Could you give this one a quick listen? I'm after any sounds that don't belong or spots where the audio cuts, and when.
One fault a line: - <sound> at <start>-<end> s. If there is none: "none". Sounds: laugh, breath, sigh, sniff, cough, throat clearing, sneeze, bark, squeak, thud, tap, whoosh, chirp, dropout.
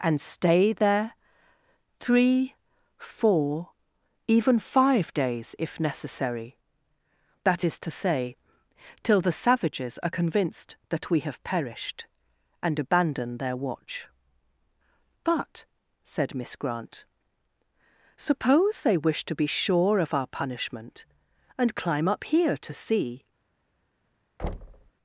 - thud at 24.4-24.9 s